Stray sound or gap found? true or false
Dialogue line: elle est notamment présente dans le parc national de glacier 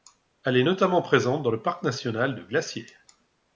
false